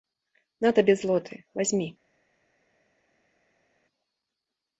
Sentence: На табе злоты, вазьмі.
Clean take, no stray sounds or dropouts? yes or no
yes